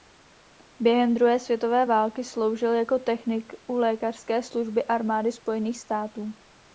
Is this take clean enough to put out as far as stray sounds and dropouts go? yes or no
yes